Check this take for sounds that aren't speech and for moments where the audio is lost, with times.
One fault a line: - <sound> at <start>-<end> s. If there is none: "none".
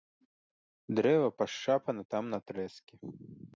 none